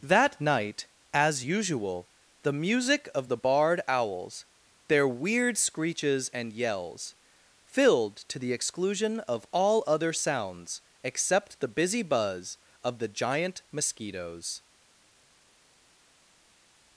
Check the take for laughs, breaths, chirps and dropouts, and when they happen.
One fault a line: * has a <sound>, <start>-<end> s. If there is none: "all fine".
all fine